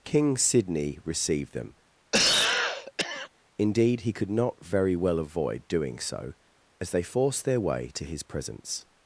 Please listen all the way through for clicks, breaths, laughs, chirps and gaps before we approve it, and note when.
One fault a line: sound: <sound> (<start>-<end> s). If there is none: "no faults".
sound: cough (2.1-3.3 s)